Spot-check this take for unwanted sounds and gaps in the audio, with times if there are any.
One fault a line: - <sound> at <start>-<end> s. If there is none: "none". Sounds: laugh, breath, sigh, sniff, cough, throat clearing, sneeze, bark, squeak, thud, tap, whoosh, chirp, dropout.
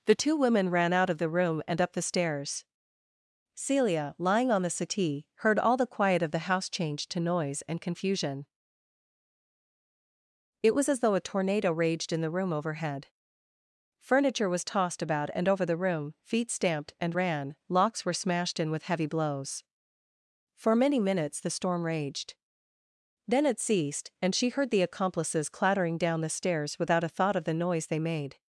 none